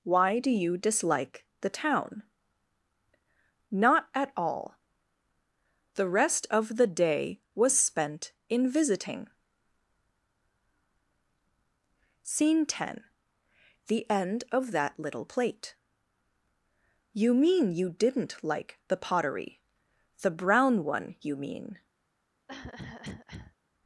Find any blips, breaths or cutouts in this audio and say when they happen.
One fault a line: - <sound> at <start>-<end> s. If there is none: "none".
- cough at 22.5-23.6 s